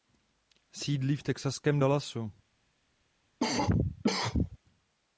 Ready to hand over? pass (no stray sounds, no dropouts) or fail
fail